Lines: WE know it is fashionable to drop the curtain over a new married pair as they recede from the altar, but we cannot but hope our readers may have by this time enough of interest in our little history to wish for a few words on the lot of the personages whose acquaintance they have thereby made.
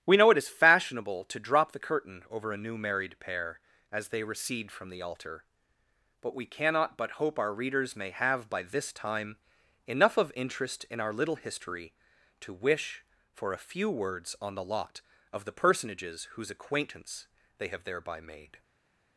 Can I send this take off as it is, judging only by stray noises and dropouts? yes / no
yes